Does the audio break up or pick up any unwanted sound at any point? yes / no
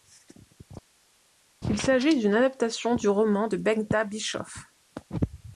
no